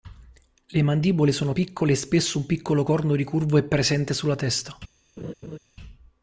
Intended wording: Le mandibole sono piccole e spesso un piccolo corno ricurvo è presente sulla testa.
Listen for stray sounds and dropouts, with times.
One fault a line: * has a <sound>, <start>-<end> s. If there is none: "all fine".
* has a laugh, 5.2-5.6 s